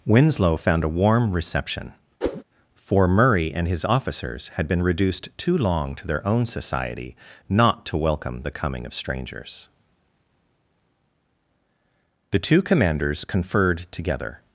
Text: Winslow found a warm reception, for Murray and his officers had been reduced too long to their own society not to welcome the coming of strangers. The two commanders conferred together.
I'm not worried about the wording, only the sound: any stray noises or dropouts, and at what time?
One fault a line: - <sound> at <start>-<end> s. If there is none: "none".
- whoosh at 2.2-2.4 s